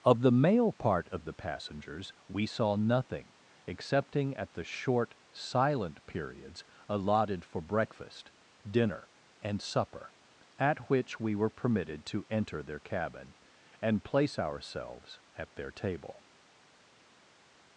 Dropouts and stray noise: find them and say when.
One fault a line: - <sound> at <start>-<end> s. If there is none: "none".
none